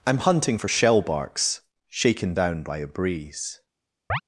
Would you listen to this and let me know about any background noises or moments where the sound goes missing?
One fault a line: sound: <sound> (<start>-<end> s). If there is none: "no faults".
sound: chirp (4.1-4.2 s)